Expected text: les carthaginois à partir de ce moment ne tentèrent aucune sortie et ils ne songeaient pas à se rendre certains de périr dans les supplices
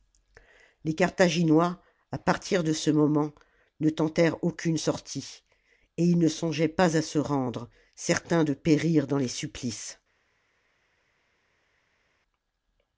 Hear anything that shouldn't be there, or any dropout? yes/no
no